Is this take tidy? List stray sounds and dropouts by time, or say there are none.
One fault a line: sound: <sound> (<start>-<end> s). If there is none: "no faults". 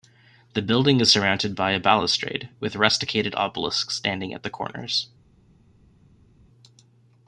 no faults